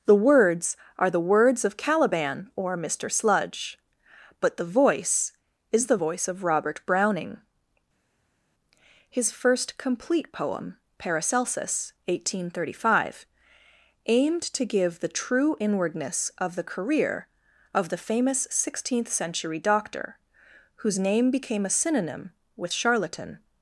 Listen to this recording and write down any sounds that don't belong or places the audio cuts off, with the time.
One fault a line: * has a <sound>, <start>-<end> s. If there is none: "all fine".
all fine